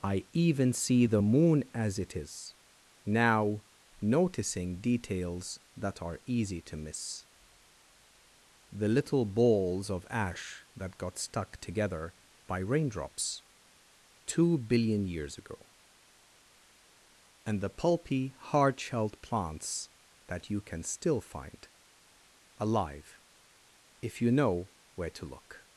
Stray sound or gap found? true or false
false